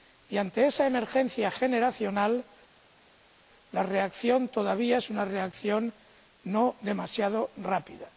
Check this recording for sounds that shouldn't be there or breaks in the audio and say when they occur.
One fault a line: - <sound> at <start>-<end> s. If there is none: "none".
none